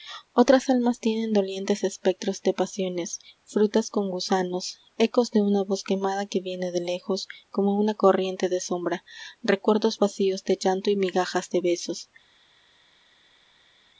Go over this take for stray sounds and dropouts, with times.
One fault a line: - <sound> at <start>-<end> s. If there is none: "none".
none